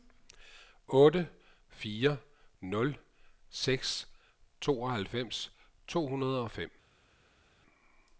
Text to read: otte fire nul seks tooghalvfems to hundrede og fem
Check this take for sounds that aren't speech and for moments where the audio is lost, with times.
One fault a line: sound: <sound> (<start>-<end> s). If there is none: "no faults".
no faults